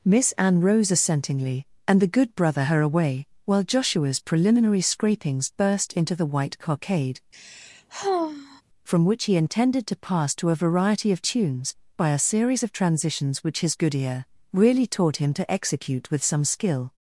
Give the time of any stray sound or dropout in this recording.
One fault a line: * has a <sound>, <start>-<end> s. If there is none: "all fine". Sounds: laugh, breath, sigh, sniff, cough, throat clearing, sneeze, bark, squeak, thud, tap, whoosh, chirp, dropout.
* has a sigh, 7.3-8.6 s